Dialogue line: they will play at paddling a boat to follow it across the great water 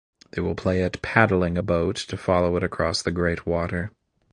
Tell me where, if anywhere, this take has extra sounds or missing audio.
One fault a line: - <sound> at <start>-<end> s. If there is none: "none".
none